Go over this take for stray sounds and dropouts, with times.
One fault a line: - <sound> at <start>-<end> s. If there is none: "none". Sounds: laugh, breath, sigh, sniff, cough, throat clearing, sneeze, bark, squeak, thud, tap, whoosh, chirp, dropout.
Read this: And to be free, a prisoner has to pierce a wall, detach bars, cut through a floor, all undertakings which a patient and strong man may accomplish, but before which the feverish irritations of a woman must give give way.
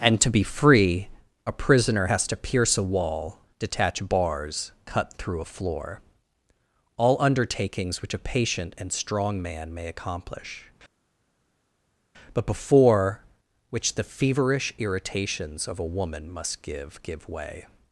none